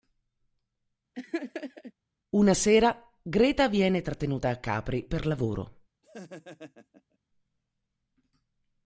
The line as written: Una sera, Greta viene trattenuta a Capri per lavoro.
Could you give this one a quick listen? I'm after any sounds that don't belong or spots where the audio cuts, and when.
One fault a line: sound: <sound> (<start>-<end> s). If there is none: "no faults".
sound: laugh (1.1-1.9 s)
sound: laugh (6.0-7.2 s)